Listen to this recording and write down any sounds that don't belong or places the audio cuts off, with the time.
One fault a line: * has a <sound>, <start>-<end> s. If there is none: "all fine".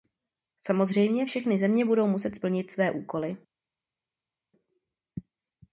all fine